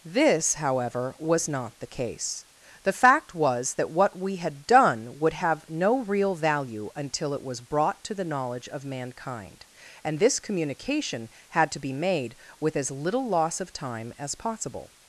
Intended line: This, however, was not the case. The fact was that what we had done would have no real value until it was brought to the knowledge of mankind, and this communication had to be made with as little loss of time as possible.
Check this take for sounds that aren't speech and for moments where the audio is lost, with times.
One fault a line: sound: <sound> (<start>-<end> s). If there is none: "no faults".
no faults